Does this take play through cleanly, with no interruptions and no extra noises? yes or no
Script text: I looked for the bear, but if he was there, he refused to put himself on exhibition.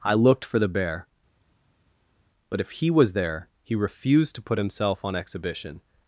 yes